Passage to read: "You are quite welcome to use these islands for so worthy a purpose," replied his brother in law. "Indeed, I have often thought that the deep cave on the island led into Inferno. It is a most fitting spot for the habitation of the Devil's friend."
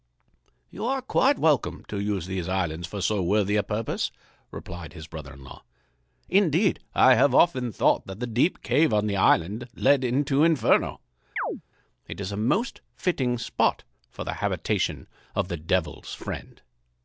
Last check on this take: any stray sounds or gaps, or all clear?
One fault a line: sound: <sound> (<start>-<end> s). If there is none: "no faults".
sound: chirp (11.4-11.6 s)